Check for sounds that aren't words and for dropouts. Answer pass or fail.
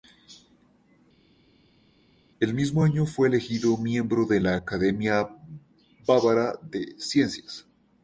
pass